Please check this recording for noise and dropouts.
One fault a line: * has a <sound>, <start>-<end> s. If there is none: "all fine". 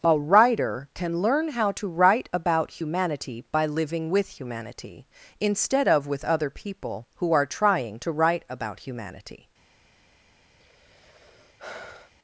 * has a sigh, 10.6-12.1 s